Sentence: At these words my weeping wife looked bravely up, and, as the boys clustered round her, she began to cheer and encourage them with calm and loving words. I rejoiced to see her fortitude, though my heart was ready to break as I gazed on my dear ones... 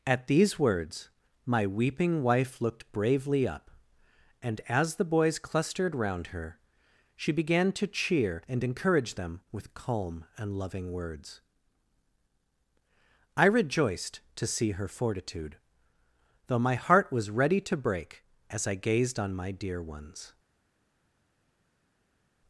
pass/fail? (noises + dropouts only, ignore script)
pass